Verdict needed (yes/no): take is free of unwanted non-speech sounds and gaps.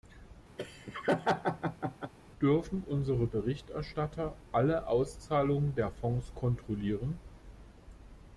no